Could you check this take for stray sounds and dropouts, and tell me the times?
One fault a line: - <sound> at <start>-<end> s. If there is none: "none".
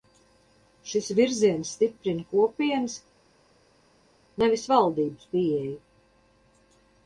none